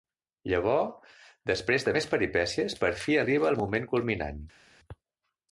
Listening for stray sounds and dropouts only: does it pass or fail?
pass